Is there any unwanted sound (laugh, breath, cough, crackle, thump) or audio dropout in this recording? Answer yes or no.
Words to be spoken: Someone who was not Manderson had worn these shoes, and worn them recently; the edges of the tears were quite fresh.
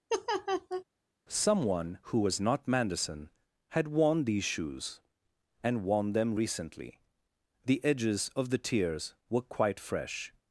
yes